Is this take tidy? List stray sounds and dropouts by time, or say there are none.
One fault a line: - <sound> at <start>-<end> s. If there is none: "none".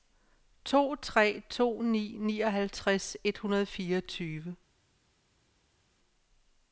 none